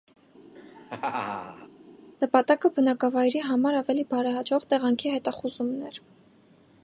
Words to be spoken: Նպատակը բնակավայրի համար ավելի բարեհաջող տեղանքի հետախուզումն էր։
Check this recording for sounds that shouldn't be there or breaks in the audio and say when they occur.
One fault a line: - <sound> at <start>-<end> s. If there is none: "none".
- laugh at 0.6-1.7 s